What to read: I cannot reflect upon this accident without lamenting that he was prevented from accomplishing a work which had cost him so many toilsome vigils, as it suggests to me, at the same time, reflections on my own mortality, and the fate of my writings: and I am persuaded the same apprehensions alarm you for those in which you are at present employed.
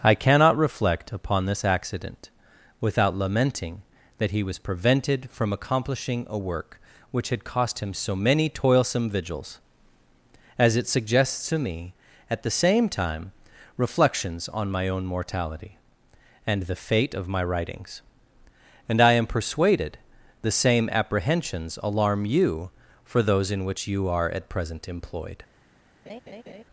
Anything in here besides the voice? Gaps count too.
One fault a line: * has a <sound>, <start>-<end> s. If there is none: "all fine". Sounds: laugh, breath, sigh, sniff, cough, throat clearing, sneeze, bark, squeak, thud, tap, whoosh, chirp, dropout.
* has a laugh, 26.1-26.6 s